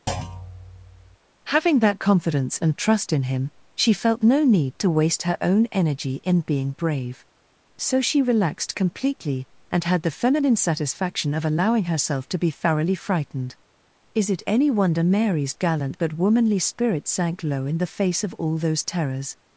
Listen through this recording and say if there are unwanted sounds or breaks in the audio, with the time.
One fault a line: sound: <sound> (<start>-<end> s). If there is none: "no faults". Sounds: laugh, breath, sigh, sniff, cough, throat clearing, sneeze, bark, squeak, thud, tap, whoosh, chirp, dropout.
sound: thud (0.1-1.2 s)